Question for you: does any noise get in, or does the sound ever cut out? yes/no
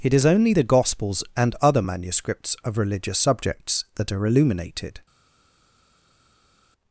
no